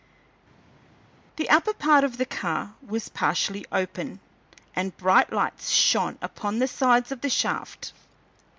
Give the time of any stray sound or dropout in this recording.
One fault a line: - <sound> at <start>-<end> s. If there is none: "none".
none